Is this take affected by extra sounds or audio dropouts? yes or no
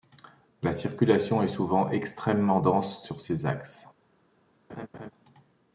yes